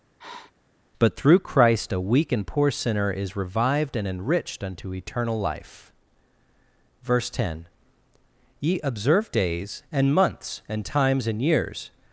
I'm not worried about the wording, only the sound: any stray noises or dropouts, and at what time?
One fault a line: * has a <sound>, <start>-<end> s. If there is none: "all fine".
* has a sniff, 0.2-0.5 s